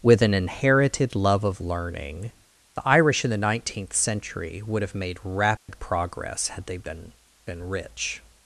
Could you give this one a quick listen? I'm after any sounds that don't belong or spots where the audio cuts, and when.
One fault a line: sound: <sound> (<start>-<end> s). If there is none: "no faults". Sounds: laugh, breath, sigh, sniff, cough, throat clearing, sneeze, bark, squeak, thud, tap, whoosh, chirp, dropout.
sound: dropout (5.6-5.7 s)